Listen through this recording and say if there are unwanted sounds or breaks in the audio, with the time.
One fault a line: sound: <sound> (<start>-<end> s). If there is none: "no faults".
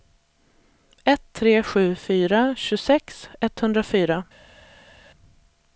no faults